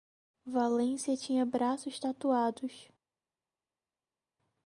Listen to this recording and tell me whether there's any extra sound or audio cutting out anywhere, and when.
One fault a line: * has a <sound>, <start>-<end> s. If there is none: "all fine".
all fine